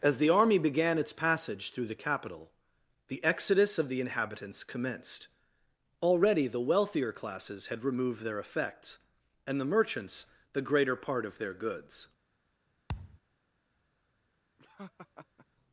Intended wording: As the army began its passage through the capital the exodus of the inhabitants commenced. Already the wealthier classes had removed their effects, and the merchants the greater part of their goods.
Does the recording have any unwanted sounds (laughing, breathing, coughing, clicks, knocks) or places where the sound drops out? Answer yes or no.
yes